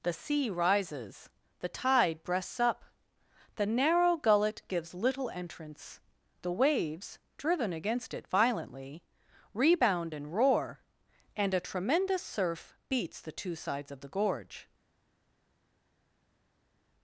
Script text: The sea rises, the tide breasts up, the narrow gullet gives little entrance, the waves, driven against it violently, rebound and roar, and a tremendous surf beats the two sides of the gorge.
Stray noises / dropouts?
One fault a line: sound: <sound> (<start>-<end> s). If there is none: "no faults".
no faults